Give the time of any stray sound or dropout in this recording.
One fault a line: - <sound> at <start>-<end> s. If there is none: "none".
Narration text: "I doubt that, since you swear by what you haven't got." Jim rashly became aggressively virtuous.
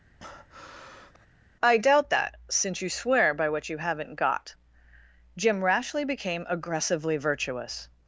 - breath at 0.2-1.3 s